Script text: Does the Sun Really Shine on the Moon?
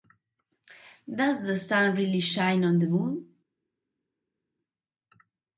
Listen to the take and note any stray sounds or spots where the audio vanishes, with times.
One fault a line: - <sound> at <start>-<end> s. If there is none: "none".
none